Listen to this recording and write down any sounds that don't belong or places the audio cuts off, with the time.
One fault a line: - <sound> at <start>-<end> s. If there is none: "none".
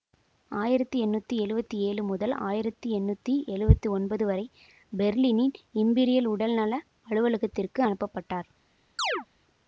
- chirp at 9.0-9.3 s